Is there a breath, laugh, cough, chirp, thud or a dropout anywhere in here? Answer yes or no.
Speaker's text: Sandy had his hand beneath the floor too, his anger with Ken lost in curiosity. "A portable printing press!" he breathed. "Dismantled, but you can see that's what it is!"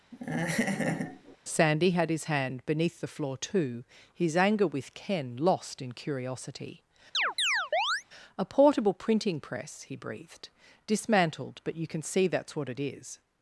yes